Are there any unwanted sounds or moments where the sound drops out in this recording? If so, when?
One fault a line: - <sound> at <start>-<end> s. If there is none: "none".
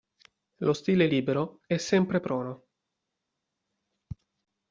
none